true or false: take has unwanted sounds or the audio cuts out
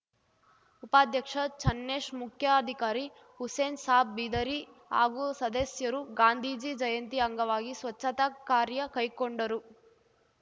false